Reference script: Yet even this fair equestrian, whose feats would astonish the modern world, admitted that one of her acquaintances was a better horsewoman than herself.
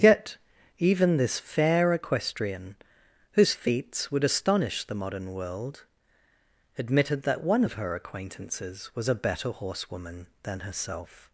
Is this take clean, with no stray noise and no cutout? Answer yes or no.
yes